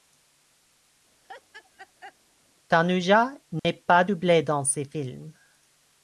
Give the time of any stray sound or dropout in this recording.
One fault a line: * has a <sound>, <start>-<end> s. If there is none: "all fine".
* has a laugh, 1.2-2.1 s
* has a dropout, 3.6-3.6 s